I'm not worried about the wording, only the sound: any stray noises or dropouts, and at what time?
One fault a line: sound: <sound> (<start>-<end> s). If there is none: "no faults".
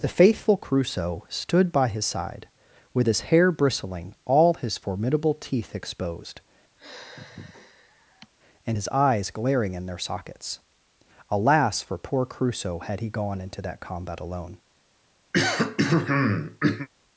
sound: sigh (6.8-8.3 s)
sound: throat clearing (15.3-16.9 s)